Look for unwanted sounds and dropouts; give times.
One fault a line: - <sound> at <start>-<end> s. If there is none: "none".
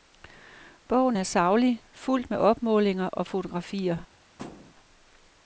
- thud at 4.4-4.7 s